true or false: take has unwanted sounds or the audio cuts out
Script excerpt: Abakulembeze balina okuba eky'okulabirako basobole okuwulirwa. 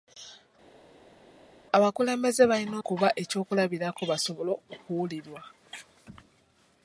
false